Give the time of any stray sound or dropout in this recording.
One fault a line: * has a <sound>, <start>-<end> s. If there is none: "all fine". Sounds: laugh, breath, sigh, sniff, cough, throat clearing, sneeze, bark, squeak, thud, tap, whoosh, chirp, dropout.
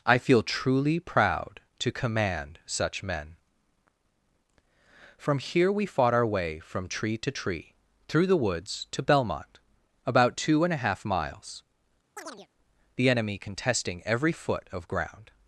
* has a chirp, 12.2-12.5 s